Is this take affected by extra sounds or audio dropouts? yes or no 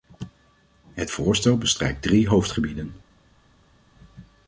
no